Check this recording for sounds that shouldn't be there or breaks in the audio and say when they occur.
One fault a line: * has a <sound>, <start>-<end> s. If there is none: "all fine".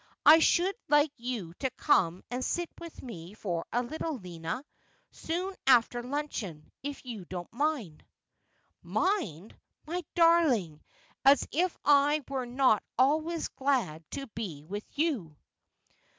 all fine